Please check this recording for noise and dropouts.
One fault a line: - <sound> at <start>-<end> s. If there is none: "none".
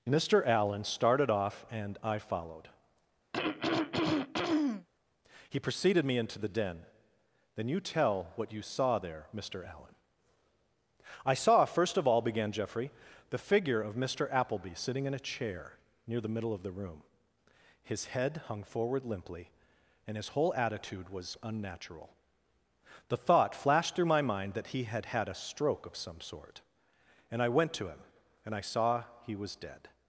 - throat clearing at 3.3-4.9 s